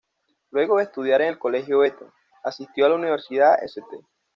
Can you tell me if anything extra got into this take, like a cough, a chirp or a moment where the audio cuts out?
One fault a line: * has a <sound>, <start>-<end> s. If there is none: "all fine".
all fine